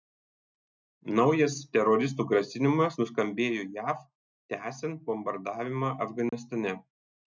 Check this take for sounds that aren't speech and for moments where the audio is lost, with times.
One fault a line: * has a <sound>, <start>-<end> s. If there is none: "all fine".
* has a dropout, 6.3-6.3 s